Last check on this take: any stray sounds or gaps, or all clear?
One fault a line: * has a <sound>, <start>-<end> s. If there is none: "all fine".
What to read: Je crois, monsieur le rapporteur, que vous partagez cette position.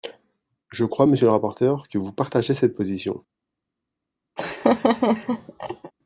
* has a laugh, 4.4-5.9 s